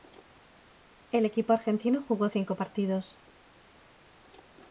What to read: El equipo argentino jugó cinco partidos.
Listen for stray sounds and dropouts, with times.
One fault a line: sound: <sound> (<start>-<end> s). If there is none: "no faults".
no faults